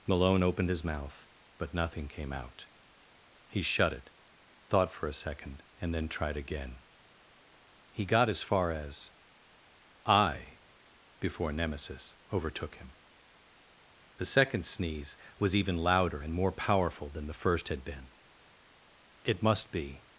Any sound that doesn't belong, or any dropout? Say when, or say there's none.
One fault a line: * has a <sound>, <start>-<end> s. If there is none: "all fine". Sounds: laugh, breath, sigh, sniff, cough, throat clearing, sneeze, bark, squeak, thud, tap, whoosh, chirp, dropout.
all fine